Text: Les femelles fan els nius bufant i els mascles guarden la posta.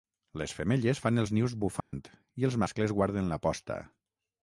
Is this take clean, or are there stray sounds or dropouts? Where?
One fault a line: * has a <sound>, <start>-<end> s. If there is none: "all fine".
* has a dropout, 1.8-1.9 s